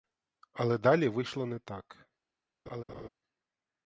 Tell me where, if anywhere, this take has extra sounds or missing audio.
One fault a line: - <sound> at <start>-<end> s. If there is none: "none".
- laugh at 2.7-3.1 s